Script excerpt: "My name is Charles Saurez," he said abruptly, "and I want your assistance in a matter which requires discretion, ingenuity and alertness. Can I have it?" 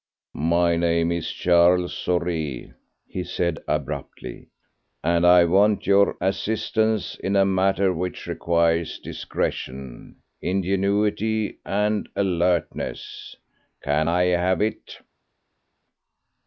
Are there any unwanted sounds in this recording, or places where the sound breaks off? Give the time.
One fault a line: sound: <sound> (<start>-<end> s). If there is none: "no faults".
no faults